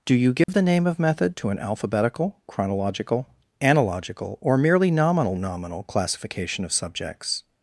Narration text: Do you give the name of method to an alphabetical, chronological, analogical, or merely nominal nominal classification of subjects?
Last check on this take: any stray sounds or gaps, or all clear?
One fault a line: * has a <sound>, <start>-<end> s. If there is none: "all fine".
* has a dropout, 0.4-0.5 s